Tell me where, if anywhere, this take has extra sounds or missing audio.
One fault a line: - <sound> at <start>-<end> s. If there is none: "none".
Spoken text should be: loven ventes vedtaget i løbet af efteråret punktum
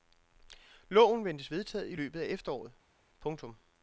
none